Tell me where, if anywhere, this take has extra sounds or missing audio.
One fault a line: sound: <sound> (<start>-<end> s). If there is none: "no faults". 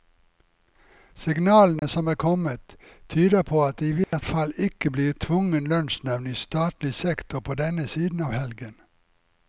sound: dropout (1.8-1.8 s)
sound: dropout (4.0-4.1 s)